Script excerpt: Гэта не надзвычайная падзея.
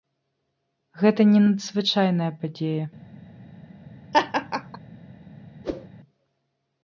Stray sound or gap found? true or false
true